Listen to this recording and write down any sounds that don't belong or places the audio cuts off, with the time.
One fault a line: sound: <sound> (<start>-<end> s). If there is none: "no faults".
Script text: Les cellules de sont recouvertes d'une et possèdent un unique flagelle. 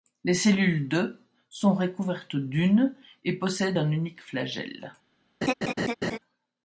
sound: laugh (5.4-6.2 s)